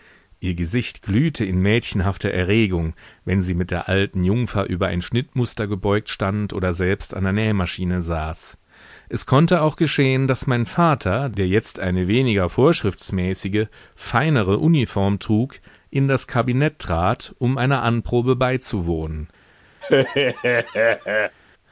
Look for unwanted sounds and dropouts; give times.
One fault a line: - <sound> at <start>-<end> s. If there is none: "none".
- laugh at 19.8-21.4 s